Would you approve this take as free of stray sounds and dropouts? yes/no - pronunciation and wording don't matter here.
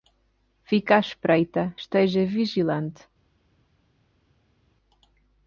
yes